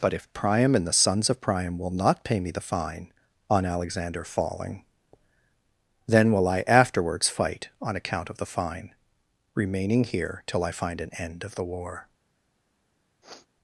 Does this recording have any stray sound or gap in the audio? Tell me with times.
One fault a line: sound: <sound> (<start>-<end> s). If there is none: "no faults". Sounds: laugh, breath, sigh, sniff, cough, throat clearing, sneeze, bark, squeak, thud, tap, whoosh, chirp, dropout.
sound: sniff (13.2-13.5 s)